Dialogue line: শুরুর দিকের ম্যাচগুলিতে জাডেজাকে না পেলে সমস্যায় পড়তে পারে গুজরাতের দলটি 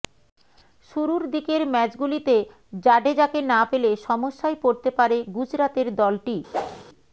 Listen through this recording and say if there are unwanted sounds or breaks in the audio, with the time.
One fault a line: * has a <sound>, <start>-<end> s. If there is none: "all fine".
* has a whoosh, 6.5-6.8 s